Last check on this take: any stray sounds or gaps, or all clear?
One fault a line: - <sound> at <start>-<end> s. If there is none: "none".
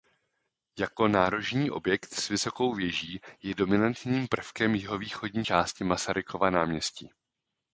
none